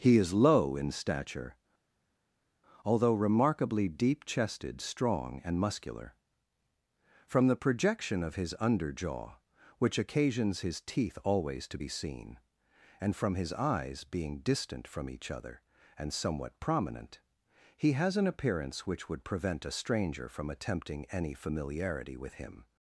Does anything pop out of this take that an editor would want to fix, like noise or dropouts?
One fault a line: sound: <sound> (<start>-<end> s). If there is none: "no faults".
no faults